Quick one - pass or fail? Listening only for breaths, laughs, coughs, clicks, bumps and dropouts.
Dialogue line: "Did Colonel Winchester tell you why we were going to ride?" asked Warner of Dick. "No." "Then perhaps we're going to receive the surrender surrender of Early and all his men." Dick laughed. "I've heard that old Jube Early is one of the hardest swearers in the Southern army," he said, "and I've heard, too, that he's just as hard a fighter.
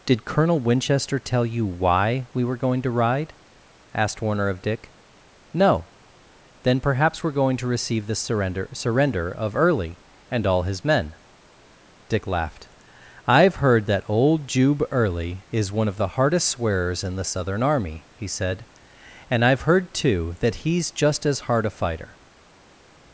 pass